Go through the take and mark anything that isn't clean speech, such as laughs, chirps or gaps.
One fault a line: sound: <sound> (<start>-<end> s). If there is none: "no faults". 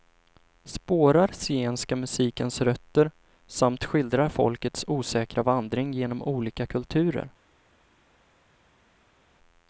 no faults